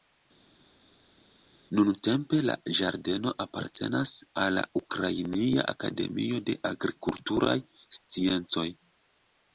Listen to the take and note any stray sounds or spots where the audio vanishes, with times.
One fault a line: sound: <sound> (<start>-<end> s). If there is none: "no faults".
no faults